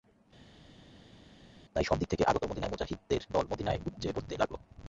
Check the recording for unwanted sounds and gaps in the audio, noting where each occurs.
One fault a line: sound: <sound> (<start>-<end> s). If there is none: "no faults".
no faults